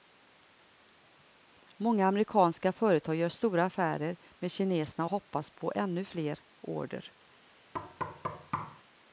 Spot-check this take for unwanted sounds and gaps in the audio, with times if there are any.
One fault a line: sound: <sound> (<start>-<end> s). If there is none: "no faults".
sound: thud (7.7-8.8 s)